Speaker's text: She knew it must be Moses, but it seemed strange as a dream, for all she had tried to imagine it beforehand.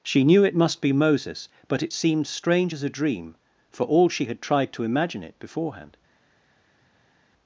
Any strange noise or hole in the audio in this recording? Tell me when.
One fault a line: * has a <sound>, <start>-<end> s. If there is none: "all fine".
all fine